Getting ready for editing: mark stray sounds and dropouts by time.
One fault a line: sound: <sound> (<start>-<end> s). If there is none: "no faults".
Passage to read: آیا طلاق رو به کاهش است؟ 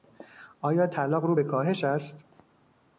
no faults